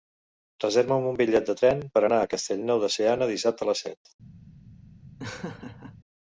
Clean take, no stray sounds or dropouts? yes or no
no